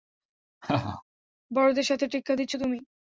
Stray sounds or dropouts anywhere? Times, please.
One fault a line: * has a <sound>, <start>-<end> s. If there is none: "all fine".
* has a laugh, 0.6-1.0 s